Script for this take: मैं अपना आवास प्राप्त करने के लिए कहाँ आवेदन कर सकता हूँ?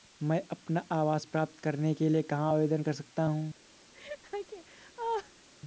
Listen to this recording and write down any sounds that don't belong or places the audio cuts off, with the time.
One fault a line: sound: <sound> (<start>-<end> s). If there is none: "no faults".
sound: laugh (3.9-5.5 s)